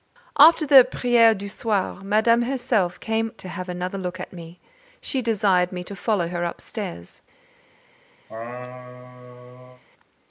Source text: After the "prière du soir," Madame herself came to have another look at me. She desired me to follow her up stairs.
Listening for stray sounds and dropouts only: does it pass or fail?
fail